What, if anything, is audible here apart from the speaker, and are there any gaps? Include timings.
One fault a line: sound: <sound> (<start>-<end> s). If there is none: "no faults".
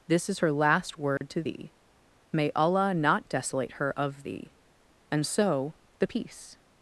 sound: dropout (1.2-1.2 s)